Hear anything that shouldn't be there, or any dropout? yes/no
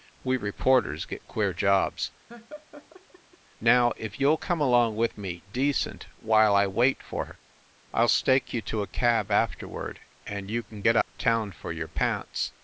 yes